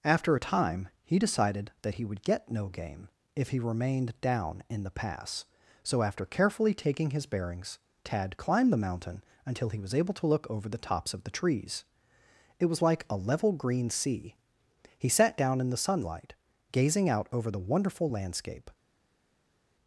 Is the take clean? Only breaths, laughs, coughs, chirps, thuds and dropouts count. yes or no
yes